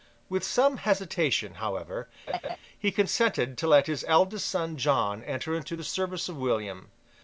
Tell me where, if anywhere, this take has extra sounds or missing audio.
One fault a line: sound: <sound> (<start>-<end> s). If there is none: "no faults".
sound: laugh (2.3-2.6 s)